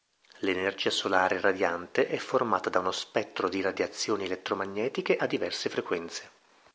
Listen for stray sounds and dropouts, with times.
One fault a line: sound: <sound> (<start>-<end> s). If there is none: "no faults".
no faults